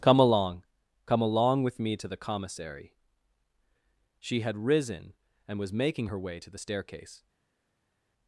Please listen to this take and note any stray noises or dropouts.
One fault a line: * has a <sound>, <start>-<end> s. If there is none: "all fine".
all fine